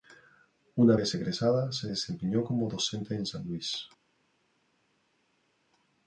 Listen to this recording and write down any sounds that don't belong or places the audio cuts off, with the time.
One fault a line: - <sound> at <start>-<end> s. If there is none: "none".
none